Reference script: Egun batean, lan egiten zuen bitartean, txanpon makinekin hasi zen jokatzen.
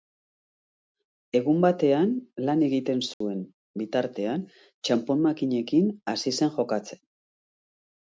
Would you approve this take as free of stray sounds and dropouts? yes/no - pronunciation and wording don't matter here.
no